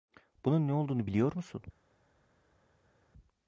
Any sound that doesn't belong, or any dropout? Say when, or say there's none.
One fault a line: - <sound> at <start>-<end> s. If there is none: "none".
none